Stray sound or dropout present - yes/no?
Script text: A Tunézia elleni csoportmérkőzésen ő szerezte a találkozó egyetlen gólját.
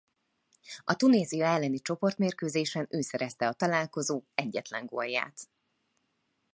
no